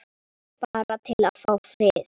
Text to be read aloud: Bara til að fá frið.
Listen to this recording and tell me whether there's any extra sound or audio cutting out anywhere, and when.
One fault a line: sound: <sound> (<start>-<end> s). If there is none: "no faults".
sound: dropout (0.6-0.7 s)